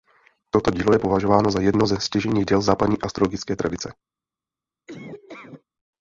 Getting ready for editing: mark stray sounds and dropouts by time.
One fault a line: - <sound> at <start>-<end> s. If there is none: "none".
- laugh at 4.9-5.6 s